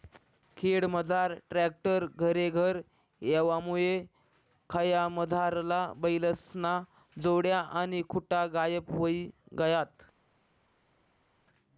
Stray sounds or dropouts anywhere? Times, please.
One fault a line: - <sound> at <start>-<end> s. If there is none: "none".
none